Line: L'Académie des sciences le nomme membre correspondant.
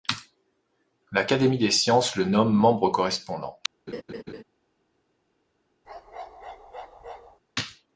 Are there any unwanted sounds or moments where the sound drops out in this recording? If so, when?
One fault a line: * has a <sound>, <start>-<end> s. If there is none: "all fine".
* has a laugh, 3.9-4.4 s
* has a bark, 5.8-7.4 s